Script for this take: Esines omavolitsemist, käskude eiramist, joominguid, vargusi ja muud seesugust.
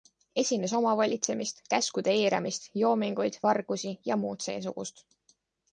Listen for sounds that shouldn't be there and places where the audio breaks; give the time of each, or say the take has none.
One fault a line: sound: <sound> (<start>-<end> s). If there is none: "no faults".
no faults